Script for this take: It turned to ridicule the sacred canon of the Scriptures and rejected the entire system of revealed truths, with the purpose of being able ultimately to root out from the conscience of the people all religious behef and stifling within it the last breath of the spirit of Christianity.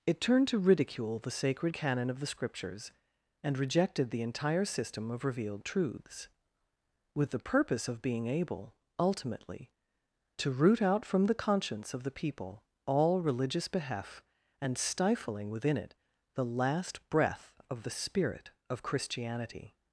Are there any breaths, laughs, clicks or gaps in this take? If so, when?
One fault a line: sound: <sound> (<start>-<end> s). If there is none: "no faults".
no faults